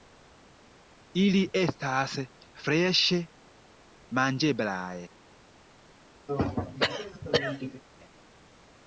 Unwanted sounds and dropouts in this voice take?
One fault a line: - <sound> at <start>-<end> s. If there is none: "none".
- throat clearing at 6.3-7.8 s